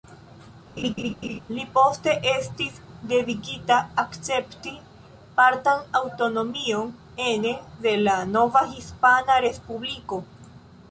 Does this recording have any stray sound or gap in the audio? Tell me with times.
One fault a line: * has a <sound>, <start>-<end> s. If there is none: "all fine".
* has a laugh, 0.8-1.4 s